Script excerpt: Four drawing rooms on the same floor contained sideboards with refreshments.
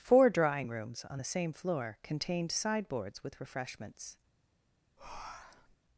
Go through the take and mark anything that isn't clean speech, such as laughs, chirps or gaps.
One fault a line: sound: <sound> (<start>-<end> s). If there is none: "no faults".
sound: breath (5.0-5.8 s)